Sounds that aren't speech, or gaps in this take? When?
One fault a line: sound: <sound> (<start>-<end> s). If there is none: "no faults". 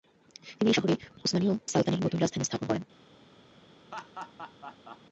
sound: laugh (3.9-5.0 s)